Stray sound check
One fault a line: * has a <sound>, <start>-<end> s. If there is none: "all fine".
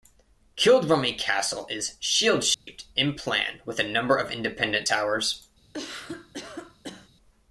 * has a dropout, 2.5-2.7 s
* has a cough, 5.7-7.1 s